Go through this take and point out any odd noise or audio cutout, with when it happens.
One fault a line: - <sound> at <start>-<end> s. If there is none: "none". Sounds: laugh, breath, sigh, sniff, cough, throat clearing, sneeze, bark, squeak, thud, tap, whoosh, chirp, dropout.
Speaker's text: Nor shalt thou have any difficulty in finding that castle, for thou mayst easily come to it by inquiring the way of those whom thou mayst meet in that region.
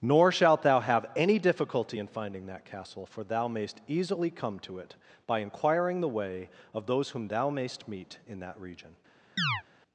- chirp at 9.4-9.6 s